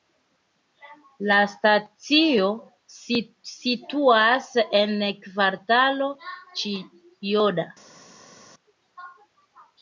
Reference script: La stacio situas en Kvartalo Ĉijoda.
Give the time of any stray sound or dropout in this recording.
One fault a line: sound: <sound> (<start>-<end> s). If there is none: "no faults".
no faults